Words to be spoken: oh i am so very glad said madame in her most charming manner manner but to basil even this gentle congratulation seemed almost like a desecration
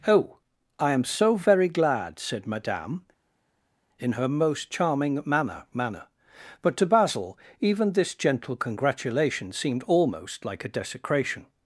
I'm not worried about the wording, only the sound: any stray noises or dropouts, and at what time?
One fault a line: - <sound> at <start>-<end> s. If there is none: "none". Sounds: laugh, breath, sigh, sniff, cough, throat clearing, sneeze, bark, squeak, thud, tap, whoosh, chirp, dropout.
none